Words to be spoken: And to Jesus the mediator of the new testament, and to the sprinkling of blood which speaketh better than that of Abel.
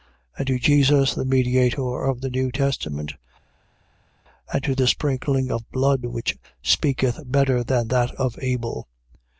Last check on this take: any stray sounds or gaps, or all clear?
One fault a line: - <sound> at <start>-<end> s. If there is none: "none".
none